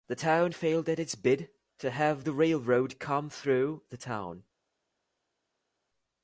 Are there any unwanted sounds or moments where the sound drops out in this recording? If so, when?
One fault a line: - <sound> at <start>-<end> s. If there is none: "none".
none